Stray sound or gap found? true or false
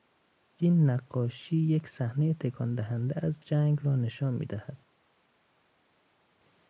false